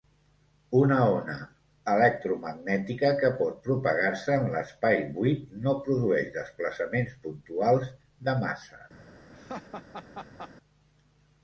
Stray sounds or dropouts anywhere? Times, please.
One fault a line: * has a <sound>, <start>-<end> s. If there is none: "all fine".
* has a laugh, 9.3-10.5 s